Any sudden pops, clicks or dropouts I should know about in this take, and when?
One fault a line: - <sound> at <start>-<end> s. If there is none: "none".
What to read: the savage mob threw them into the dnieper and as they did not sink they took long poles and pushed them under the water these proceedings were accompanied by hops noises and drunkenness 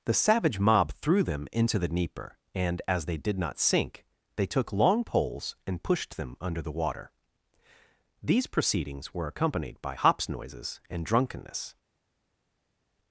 none